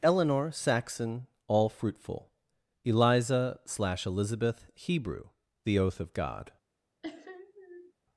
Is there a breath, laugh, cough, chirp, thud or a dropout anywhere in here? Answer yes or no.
yes